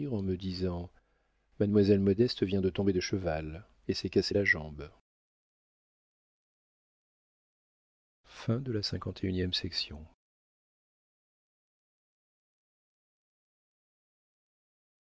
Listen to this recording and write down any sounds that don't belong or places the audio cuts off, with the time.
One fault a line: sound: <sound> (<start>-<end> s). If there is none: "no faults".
no faults